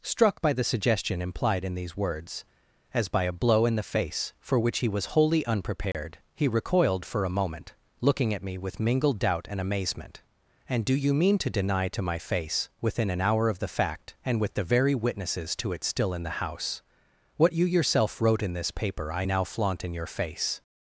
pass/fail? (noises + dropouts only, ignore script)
fail